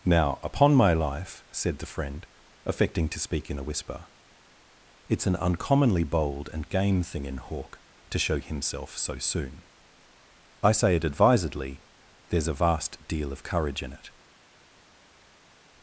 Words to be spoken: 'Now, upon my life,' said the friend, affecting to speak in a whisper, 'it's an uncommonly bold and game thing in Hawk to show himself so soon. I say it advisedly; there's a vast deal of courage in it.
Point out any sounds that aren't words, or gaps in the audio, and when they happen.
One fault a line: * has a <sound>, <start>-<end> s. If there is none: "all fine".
all fine